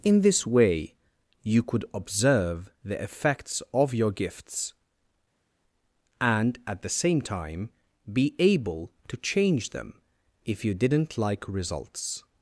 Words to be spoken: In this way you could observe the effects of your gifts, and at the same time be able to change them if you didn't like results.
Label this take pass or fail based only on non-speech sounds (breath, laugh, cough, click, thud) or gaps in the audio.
pass